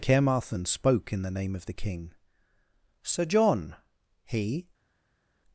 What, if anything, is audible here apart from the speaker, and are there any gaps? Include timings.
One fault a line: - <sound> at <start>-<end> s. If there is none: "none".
none